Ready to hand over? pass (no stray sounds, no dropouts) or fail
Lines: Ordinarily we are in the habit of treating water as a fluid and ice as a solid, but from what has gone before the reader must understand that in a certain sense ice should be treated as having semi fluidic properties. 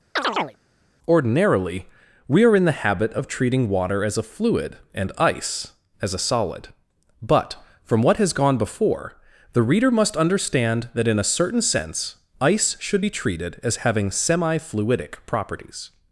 fail